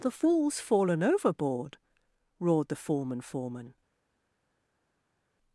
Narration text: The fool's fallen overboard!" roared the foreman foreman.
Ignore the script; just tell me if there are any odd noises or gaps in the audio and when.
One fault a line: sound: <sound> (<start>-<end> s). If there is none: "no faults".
no faults